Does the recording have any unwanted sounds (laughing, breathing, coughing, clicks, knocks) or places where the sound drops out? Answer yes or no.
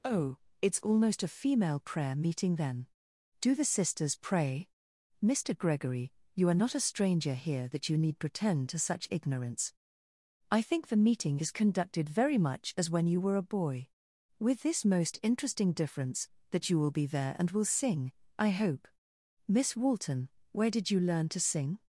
no